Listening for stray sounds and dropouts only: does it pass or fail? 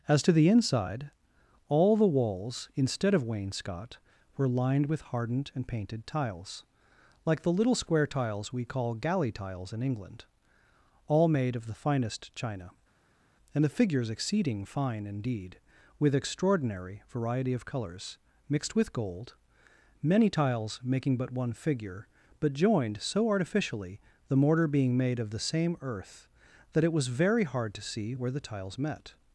pass